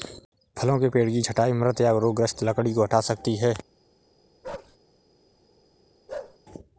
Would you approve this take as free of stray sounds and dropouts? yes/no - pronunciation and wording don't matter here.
no